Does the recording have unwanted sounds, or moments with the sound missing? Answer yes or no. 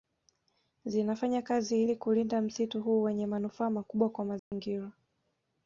yes